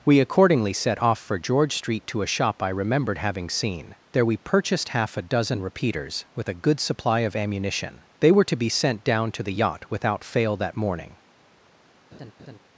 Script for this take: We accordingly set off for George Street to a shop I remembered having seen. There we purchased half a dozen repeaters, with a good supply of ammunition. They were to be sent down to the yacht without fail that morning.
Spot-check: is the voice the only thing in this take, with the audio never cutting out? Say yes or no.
no